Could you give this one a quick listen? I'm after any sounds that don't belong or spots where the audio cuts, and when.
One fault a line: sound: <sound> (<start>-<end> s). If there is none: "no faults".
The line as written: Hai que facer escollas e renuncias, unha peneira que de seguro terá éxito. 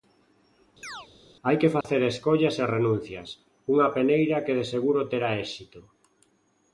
sound: chirp (0.8-1.1 s)
sound: dropout (1.8-1.8 s)